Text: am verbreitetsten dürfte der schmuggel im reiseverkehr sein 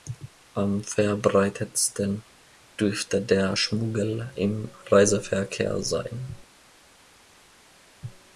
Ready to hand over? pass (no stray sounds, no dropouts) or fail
pass